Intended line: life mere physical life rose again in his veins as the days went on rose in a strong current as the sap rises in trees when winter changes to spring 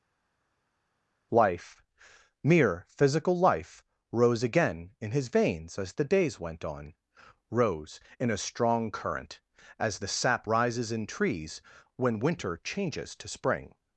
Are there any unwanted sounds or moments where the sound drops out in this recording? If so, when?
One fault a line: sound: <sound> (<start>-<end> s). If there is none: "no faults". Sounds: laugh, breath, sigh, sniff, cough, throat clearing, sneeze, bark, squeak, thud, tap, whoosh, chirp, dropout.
no faults